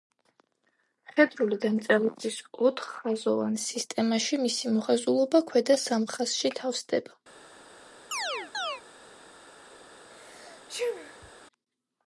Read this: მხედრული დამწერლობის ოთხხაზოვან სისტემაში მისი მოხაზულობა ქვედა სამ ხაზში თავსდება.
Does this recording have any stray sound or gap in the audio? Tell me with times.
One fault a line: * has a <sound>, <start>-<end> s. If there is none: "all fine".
* has a chirp, 8.1-8.8 s
* has a sneeze, 10.1-11.3 s